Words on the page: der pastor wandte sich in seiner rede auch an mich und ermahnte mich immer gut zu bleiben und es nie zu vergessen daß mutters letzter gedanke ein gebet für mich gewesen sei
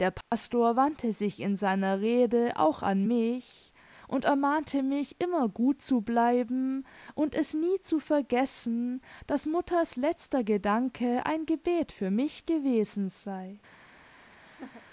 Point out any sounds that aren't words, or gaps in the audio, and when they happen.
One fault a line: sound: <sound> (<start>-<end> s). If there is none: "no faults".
sound: dropout (0.2-0.3 s)
sound: laugh (14.4-14.9 s)